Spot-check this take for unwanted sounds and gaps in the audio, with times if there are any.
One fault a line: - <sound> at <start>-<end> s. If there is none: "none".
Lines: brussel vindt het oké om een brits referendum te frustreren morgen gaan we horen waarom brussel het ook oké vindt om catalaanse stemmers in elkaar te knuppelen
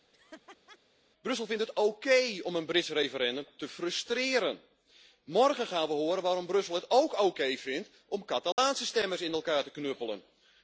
- laugh at 0.1-0.8 s
- dropout at 8.5-8.6 s